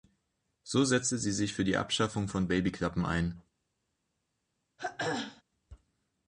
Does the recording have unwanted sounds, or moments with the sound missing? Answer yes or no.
yes